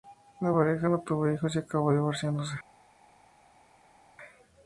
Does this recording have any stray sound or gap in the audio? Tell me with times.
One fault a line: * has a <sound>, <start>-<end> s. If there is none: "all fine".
all fine